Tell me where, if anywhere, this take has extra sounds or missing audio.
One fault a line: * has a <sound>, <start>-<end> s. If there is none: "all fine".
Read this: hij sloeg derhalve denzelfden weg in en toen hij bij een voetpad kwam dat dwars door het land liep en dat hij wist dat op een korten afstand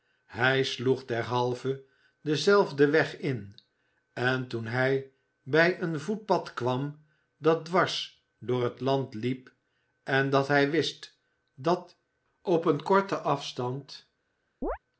* has a chirp, 14.6-14.8 s